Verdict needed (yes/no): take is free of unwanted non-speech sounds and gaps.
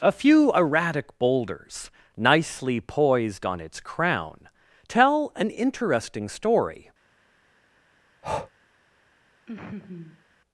no